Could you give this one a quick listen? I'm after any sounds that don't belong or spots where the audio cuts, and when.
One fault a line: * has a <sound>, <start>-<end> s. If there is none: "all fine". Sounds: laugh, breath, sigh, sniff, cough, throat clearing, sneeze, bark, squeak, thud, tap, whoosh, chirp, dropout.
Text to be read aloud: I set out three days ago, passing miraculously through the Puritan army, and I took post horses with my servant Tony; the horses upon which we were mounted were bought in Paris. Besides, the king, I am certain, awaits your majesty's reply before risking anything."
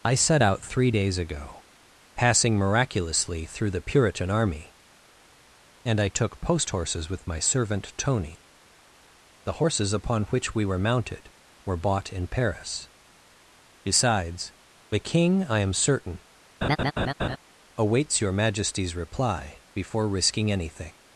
* has a laugh, 16.6-17.4 s